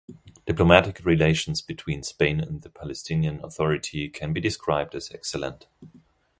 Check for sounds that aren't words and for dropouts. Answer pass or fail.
pass